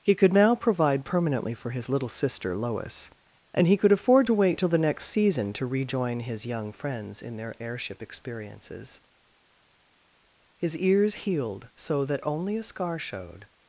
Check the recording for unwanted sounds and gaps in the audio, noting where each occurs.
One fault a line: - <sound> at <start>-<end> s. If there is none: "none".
none